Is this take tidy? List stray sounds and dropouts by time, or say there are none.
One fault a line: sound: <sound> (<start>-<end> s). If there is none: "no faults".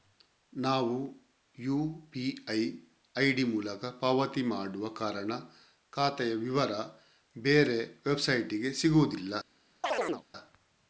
sound: chirp (9.8-10.2 s)